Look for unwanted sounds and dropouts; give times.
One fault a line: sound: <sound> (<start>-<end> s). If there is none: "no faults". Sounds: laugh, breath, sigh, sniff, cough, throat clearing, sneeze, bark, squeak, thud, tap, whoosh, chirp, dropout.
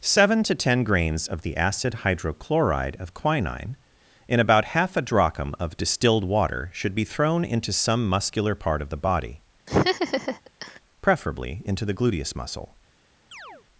sound: laugh (9.7-10.8 s)
sound: chirp (13.3-13.7 s)